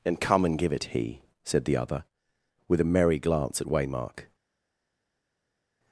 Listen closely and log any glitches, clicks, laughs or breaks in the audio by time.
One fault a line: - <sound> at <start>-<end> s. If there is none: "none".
none